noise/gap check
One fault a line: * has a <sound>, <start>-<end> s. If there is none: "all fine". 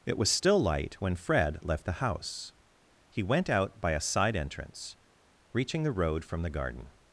all fine